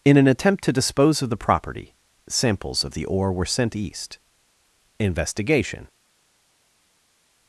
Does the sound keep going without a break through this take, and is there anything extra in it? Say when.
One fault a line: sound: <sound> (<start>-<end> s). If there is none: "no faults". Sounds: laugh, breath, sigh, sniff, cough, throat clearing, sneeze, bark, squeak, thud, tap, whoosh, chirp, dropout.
no faults